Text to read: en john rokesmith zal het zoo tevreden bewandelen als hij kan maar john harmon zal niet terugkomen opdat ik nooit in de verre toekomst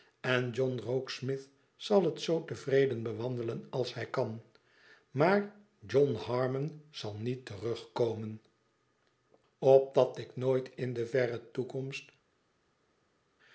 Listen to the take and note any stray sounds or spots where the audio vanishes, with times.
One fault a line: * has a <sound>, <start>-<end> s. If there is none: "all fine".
all fine